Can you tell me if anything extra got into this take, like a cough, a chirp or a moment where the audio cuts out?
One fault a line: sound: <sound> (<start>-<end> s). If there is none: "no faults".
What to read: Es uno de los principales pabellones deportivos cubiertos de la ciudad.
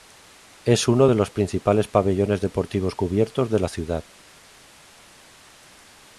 no faults